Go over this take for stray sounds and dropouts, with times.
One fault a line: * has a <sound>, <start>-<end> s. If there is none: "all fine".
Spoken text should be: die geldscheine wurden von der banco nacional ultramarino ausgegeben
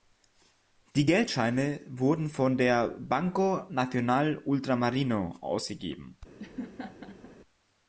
* has a laugh, 6.4-7.4 s